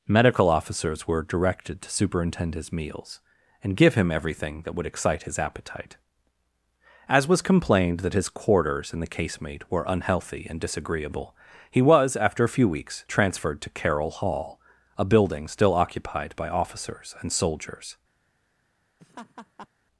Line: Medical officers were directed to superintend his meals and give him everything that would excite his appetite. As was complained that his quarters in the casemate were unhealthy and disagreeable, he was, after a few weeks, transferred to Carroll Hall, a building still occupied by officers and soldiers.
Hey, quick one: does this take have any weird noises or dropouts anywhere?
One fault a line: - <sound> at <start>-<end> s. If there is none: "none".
- laugh at 19.0-19.7 s